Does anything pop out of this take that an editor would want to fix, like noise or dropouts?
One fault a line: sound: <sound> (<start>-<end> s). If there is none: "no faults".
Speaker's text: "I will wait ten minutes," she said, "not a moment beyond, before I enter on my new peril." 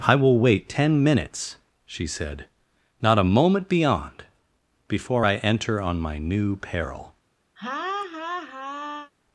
sound: laugh (7.6-9.1 s)